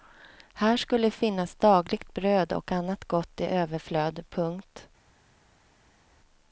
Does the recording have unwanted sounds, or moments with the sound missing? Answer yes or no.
no